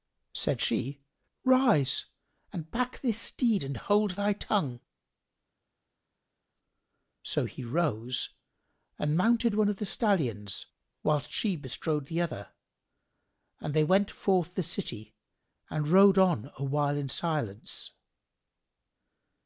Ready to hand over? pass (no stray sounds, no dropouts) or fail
pass